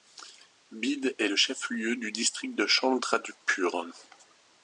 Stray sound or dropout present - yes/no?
no